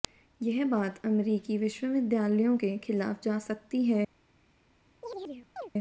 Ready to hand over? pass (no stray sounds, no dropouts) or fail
fail